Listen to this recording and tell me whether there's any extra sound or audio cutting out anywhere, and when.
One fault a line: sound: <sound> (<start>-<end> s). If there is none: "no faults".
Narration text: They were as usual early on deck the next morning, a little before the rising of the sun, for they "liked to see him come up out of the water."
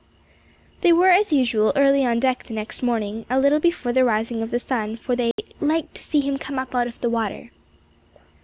sound: dropout (5.3-5.4 s)